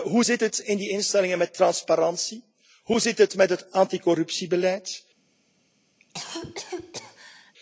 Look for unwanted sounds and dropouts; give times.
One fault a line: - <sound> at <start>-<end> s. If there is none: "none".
- cough at 6.0-7.5 s